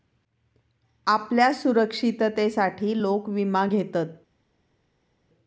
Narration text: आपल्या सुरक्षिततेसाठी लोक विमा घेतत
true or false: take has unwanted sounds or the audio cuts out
false